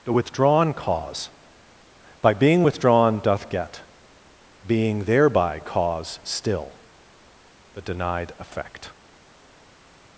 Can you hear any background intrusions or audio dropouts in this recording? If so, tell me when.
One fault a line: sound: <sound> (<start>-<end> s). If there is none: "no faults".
no faults